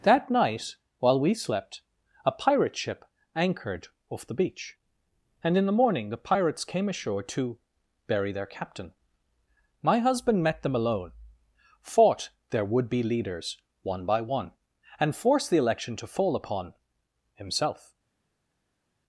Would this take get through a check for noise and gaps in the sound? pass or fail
pass